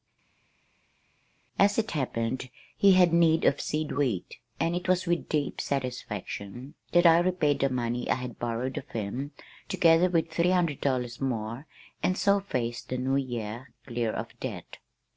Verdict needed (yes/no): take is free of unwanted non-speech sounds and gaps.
yes